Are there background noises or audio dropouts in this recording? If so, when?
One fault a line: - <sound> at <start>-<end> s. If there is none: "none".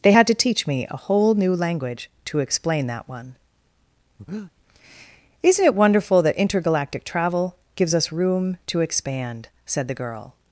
- breath at 4.2-4.5 s